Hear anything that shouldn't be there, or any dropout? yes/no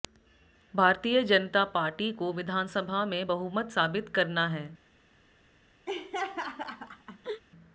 yes